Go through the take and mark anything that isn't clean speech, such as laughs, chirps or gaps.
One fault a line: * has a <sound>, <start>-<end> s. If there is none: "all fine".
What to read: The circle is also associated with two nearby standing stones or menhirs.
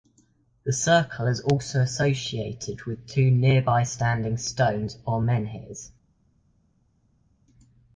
all fine